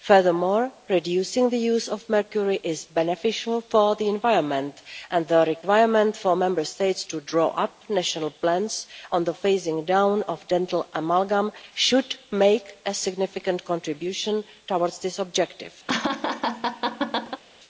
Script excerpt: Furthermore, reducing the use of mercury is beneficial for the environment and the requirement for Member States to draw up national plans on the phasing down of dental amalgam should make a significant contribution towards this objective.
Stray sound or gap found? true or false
true